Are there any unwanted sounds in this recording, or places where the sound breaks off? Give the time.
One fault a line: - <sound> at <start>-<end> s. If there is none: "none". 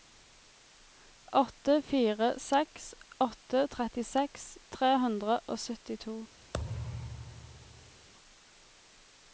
- thud at 6.5-8.1 s